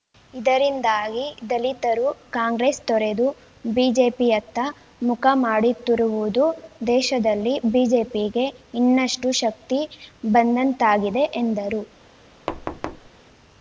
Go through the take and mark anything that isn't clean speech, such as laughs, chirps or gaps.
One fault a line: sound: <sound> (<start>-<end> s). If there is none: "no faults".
sound: thud (12.5-13.1 s)